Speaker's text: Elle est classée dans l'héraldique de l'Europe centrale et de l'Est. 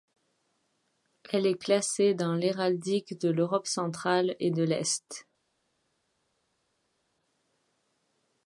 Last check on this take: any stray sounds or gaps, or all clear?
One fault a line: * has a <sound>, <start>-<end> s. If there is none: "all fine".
all fine